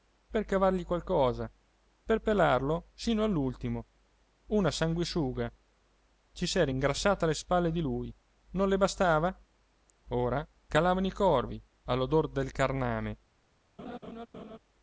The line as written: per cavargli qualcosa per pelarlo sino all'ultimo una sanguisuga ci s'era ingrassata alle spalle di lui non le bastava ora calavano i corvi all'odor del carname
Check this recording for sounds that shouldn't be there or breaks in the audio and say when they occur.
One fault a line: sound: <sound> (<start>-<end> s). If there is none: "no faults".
sound: laugh (13.8-14.6 s)